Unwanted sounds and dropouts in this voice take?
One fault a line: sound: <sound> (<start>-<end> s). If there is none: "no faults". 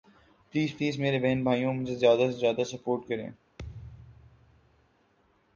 sound: thud (3.6-4.9 s)